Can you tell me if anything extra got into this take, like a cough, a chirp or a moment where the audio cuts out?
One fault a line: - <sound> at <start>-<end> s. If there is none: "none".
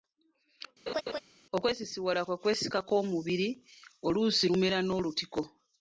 - laugh at 0.9-1.2 s